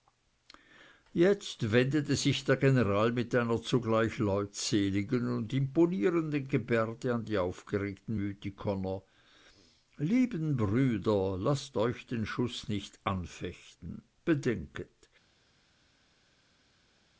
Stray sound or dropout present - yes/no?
no